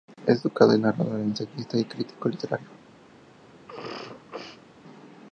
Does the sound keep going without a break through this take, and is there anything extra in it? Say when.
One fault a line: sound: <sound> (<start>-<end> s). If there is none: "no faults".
sound: sneeze (3.7-4.7 s)